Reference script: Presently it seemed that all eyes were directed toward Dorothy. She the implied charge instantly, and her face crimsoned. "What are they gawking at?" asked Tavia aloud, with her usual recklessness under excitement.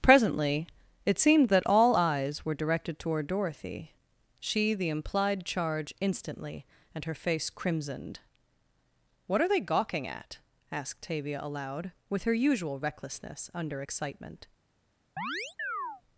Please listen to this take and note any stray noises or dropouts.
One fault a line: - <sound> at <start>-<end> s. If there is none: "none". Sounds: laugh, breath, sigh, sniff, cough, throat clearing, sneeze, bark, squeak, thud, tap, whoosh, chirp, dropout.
- chirp at 15.2-16.0 s